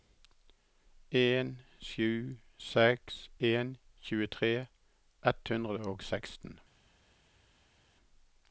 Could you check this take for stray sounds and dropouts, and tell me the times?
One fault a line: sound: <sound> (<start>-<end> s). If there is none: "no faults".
no faults